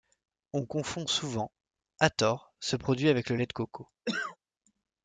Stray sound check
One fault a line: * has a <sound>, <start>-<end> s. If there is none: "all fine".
* has a cough, 4.1-4.4 s